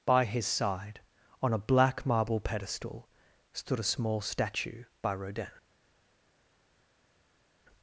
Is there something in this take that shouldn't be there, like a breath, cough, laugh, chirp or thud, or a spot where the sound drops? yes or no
no